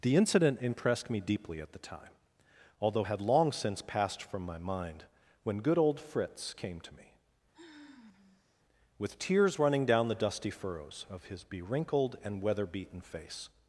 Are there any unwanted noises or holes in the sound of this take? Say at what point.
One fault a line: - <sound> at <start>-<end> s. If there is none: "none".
- sigh at 7.5-8.6 s